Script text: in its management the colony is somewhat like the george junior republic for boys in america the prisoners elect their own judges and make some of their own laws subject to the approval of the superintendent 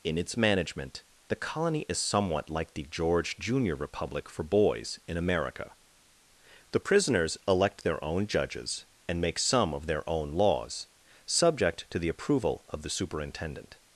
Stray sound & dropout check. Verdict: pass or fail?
pass